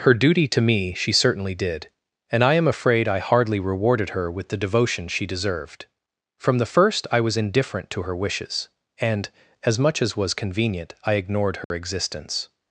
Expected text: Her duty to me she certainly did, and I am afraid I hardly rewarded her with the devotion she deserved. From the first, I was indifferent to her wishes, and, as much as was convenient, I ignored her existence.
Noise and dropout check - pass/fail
fail